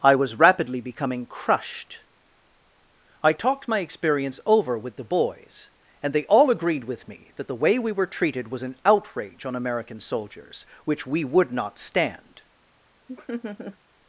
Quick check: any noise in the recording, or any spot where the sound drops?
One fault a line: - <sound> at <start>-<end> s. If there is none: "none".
- laugh at 13.1-13.8 s